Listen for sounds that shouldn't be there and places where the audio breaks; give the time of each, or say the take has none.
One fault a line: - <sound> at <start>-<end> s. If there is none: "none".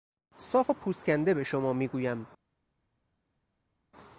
none